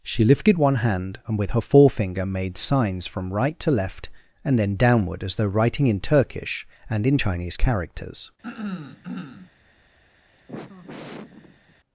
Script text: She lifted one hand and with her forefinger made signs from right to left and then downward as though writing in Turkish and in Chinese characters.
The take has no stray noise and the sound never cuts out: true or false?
false